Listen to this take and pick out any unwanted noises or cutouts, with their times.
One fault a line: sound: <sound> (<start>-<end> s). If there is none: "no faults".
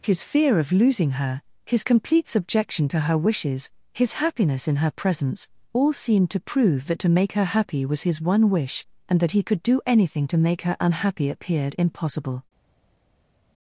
no faults